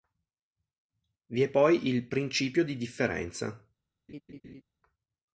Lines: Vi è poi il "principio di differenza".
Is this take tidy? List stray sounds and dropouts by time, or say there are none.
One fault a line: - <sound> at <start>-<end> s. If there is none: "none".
- laugh at 4.1-4.6 s